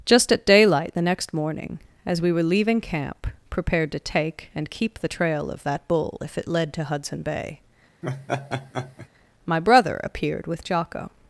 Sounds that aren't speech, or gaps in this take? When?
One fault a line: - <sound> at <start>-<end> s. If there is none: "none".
- laugh at 8.0-9.1 s